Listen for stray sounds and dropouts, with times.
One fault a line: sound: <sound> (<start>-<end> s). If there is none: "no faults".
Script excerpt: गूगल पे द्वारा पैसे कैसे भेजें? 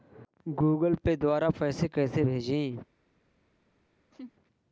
sound: laugh (4.1-4.3 s)